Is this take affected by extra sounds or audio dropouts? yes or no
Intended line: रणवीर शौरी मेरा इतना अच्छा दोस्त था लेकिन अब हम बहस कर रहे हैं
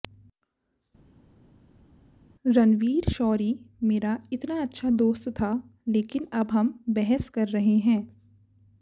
no